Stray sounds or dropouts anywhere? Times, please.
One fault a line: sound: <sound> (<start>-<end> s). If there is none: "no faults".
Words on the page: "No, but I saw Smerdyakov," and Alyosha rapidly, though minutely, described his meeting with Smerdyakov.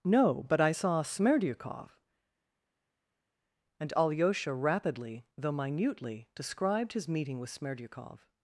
no faults